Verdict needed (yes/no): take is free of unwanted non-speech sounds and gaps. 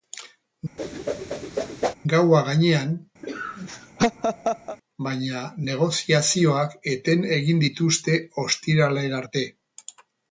no